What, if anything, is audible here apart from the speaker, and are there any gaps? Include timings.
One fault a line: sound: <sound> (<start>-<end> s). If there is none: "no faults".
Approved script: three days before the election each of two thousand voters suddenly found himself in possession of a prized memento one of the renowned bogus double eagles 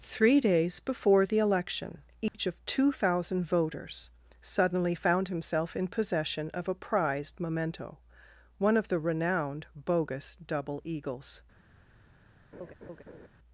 sound: dropout (2.3-2.3 s)
sound: laugh (12.5-13.3 s)